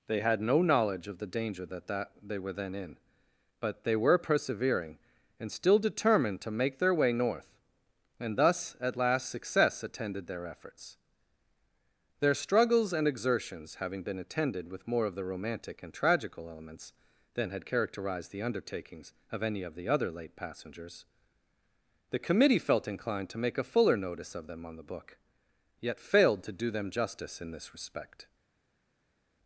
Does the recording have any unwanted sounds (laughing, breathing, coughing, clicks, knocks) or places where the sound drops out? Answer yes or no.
no